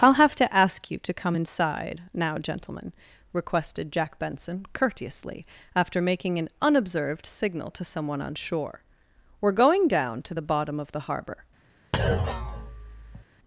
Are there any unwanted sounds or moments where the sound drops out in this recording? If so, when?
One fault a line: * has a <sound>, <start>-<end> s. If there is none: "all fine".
* has a thud, 11.9-13.2 s